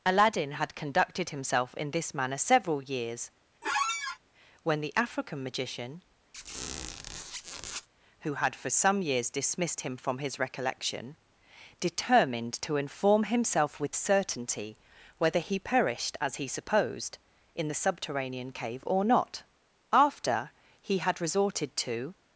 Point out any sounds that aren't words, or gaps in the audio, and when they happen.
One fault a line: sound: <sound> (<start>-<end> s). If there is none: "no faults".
sound: squeak (3.6-4.2 s)
sound: squeak (6.3-7.9 s)